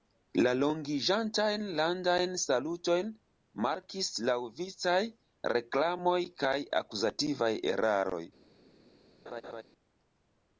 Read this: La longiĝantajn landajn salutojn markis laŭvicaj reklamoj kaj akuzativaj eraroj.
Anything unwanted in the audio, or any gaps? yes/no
yes